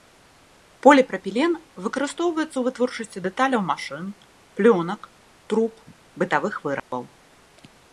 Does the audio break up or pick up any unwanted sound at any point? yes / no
yes